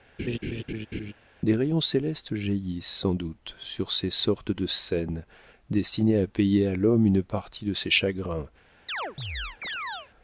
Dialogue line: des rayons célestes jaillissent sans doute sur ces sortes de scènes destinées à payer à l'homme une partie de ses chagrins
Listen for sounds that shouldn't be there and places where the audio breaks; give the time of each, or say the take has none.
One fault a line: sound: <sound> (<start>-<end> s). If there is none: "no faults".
sound: laugh (0.2-1.1 s)
sound: chirp (8.9-10.1 s)